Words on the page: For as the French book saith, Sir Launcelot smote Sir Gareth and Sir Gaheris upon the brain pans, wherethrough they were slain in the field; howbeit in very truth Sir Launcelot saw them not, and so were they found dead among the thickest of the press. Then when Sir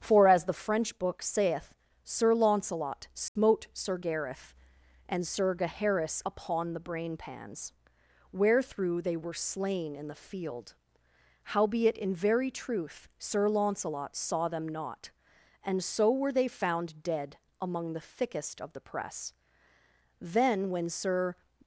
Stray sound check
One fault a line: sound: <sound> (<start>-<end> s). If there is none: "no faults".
sound: dropout (3.3-3.4 s)